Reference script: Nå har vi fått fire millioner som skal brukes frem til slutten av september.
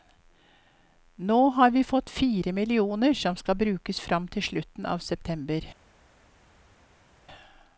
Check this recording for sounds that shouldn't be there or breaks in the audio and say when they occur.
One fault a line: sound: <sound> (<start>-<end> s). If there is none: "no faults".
no faults